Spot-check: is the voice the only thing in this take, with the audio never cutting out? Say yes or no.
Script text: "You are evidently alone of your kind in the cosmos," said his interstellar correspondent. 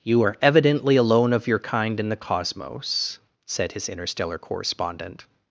yes